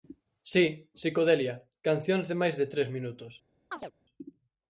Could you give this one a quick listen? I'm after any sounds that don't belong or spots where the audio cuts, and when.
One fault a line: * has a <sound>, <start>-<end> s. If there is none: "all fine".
* has a chirp, 3.7-3.9 s